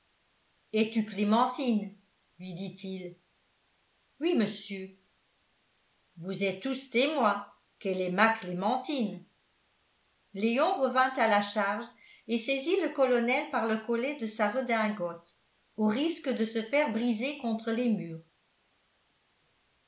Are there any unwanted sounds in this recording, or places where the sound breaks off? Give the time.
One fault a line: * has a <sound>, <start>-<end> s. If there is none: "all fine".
all fine